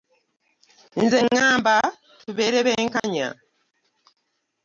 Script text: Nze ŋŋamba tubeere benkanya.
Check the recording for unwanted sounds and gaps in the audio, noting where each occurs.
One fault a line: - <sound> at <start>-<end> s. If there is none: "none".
- dropout at 3.0-3.0 s